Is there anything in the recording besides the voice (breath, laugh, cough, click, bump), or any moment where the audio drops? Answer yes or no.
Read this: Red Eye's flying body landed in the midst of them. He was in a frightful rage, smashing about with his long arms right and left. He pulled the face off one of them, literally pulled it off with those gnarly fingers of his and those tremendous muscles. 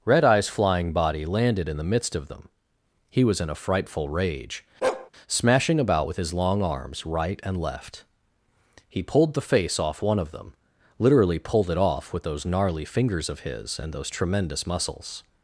yes